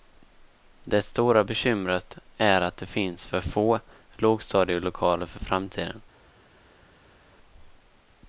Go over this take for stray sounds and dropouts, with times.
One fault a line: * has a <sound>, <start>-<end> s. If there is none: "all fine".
all fine